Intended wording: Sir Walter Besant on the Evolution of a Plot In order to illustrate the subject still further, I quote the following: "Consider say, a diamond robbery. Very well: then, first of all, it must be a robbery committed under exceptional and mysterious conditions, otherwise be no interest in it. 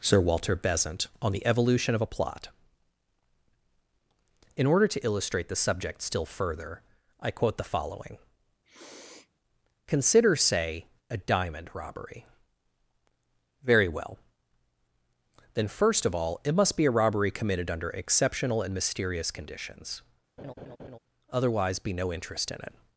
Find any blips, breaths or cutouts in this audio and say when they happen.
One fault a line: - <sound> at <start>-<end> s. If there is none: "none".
- sniff at 8.6-9.3 s
- laugh at 20.4-21.0 s